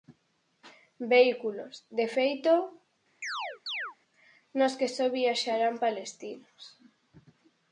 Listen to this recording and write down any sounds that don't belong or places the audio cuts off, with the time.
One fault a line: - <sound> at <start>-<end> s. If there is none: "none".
- chirp at 3.2-4.0 s